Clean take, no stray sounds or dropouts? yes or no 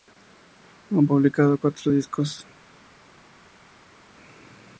yes